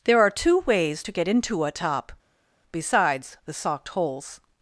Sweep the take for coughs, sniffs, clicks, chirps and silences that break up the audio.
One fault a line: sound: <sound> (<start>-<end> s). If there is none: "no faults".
no faults